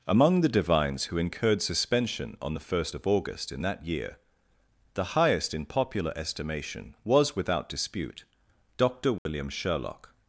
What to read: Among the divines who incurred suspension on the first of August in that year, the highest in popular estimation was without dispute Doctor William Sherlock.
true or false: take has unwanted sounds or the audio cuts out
true